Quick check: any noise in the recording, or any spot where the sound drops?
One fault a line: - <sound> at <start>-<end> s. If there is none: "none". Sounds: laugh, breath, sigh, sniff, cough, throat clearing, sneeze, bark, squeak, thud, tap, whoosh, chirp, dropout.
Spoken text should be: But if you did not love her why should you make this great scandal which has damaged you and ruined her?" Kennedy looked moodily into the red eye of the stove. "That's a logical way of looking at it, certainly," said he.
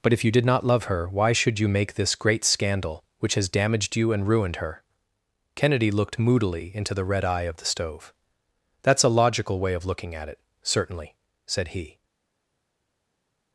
none